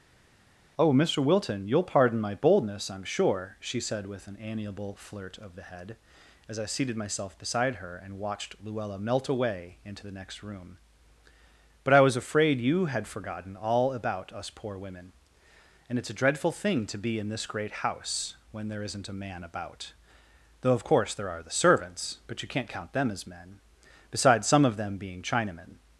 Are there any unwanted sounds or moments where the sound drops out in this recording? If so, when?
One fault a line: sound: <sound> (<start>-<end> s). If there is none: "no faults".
no faults